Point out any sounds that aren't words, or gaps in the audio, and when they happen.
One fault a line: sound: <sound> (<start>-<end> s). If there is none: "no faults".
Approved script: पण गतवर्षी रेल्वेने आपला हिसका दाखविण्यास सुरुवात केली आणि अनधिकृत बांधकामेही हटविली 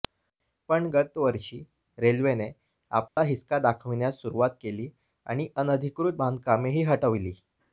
sound: dropout (3.1-3.2 s)